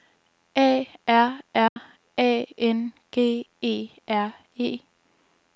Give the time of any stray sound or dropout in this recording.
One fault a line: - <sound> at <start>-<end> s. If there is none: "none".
- dropout at 1.7-1.8 s